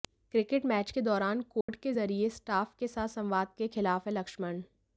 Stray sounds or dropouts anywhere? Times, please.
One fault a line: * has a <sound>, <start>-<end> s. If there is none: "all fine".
* has a dropout, 1.6-1.7 s